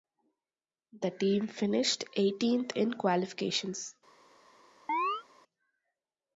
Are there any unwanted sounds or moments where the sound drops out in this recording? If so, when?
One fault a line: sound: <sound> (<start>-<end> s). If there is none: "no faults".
sound: chirp (4.9-5.2 s)